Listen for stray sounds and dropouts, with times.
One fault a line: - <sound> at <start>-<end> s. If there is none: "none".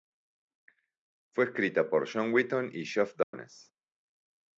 - dropout at 3.2-3.3 s